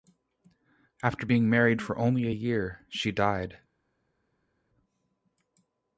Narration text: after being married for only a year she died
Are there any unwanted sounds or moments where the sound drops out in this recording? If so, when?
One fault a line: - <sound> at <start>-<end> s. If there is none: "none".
none